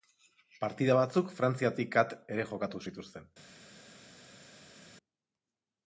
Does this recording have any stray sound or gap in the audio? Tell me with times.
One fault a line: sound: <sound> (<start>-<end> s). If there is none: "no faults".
no faults